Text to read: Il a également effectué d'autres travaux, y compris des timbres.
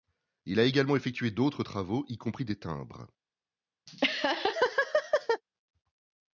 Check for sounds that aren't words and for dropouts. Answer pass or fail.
fail